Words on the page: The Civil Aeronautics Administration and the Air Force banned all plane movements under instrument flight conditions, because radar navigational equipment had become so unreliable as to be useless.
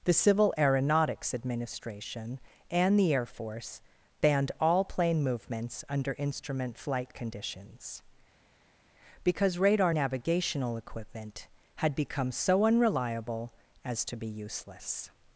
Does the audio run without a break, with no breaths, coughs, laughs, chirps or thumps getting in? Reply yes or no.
yes